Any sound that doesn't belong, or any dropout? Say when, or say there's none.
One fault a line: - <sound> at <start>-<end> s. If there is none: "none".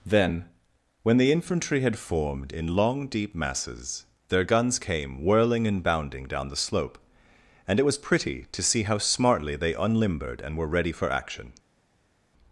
none